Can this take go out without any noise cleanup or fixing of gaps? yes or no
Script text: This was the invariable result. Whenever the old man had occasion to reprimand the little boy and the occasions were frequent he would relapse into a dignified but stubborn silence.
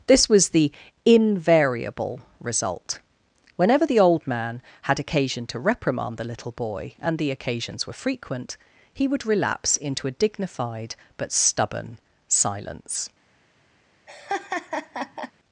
no